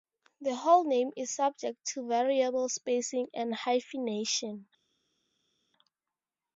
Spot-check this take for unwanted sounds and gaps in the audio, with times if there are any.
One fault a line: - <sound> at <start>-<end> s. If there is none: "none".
none